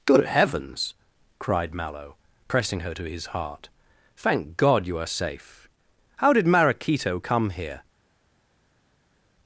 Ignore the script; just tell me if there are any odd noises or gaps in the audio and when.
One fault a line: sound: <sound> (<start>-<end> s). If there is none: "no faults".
no faults